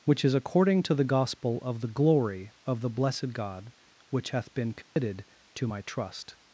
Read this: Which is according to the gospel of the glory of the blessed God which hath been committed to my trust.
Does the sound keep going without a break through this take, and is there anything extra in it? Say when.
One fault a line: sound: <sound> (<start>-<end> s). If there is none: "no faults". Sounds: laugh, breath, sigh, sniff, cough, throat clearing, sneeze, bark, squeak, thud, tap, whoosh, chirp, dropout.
sound: dropout (4.8-5.0 s)